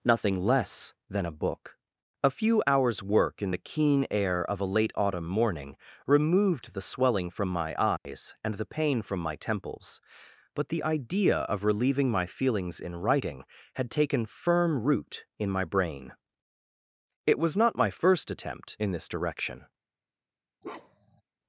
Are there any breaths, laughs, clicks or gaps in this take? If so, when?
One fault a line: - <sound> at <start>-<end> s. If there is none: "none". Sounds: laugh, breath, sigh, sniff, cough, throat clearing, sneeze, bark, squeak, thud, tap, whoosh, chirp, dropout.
- dropout at 8.0-8.1 s
- bark at 20.6-21.2 s